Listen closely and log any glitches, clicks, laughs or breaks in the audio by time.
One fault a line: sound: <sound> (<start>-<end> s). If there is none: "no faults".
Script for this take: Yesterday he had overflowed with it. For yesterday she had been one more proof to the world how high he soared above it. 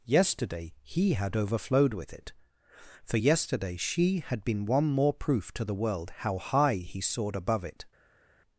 no faults